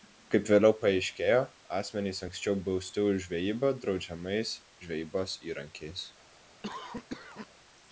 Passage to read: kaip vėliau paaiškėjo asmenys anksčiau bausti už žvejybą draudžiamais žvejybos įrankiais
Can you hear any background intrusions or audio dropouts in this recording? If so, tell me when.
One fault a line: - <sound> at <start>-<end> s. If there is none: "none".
- cough at 6.6-7.5 s